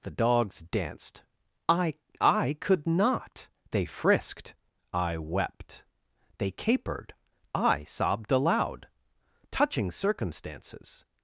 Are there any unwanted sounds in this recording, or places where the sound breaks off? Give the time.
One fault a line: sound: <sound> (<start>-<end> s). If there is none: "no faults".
no faults